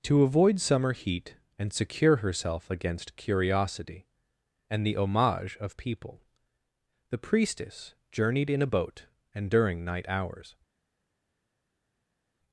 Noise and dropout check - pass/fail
pass